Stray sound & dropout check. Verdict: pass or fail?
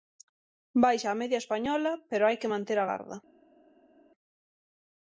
pass